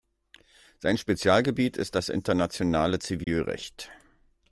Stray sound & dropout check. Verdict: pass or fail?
fail